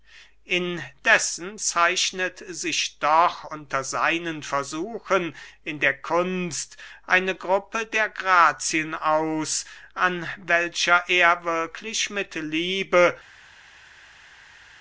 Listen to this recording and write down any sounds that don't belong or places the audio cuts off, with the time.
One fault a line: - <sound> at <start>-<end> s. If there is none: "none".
none